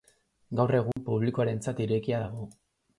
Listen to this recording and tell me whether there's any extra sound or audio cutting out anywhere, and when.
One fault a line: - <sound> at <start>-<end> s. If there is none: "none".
- dropout at 0.9-1.0 s